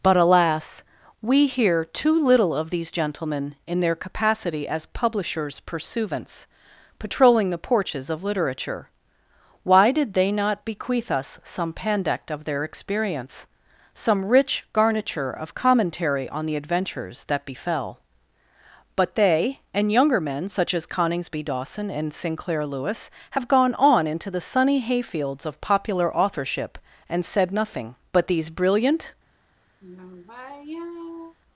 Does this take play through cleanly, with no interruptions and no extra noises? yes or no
no